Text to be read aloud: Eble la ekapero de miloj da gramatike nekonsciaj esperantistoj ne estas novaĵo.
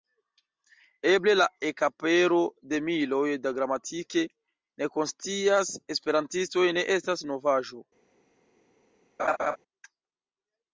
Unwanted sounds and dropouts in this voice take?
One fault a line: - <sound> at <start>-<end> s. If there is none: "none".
- laugh at 9.2-9.6 s